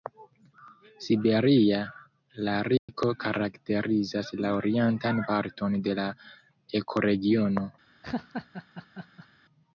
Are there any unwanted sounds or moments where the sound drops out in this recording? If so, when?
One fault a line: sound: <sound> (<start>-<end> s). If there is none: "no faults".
sound: dropout (2.8-2.9 s)
sound: laugh (8.0-9.3 s)